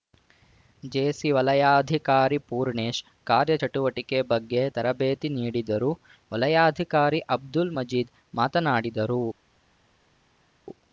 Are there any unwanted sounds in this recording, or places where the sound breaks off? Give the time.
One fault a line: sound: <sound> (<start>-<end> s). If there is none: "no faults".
no faults